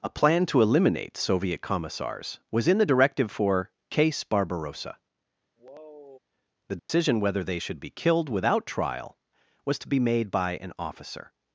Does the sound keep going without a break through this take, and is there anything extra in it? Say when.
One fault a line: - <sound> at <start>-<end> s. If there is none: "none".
- sigh at 5.6-6.2 s
- dropout at 6.8-6.9 s